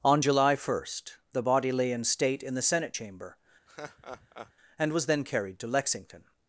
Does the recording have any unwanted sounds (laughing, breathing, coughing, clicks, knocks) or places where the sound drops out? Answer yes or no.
yes